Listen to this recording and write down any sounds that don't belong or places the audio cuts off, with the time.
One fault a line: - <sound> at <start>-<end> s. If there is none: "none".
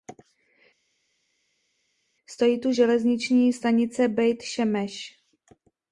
none